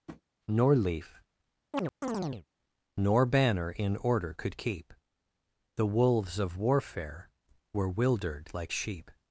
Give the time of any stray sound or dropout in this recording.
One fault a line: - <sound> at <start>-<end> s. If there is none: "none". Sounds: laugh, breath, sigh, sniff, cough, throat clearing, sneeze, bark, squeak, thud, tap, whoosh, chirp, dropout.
- tap at 0.1-0.2 s
- chirp at 1.7-2.5 s